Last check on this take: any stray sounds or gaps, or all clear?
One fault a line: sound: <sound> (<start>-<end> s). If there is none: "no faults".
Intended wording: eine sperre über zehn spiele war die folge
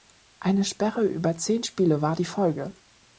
no faults